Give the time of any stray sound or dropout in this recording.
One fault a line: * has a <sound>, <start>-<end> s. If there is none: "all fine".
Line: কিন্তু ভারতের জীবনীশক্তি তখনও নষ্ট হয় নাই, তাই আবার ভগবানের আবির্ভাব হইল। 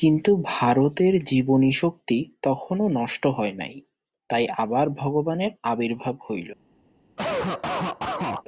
* has a cough, 7.2-8.4 s